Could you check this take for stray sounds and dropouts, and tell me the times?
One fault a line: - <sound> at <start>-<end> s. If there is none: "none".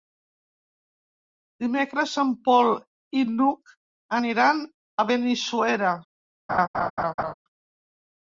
- laugh at 6.5-7.3 s